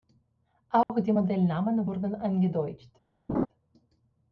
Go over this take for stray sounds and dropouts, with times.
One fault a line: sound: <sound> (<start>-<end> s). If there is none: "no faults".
sound: dropout (0.8-0.9 s)
sound: laugh (3.3-3.5 s)